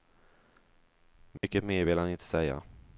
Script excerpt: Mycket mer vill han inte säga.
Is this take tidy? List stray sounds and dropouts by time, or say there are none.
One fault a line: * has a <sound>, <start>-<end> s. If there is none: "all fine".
* has a dropout, 1.4-1.4 s